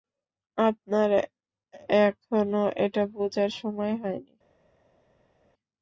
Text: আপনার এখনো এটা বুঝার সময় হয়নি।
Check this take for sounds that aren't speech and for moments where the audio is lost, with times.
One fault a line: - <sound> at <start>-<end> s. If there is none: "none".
none